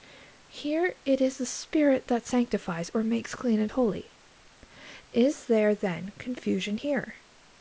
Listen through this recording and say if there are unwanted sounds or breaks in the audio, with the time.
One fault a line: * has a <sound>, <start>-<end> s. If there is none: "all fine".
all fine